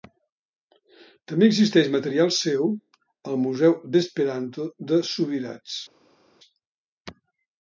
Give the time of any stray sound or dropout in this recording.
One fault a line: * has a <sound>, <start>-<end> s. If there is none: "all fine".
all fine